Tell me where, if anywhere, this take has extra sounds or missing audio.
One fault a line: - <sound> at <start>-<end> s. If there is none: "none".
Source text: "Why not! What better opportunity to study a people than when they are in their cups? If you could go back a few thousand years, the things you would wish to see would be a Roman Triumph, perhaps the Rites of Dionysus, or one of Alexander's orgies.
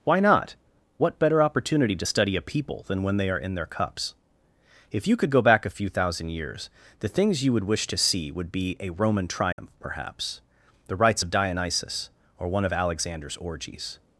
- dropout at 9.5-9.6 s